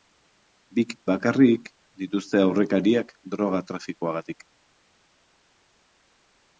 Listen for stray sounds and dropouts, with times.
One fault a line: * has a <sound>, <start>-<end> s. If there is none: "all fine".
all fine